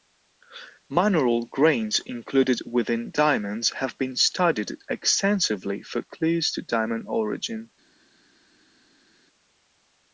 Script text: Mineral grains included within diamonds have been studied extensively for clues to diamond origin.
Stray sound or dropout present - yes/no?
no